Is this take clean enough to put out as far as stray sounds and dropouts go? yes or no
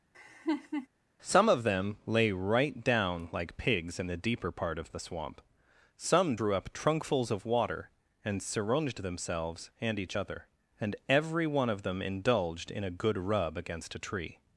no